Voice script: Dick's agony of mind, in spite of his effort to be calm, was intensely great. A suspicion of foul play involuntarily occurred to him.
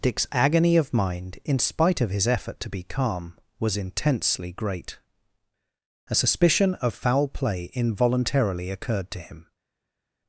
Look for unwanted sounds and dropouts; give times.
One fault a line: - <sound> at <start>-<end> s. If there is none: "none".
none